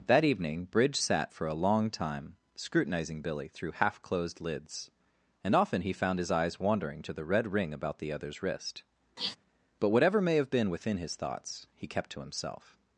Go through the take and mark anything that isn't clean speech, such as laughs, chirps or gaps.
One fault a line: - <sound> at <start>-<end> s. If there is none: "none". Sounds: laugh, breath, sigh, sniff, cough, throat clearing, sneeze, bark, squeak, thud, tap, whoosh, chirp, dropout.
- sniff at 9.2-9.4 s